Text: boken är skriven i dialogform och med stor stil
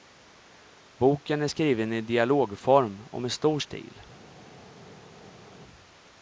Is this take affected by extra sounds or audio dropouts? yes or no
no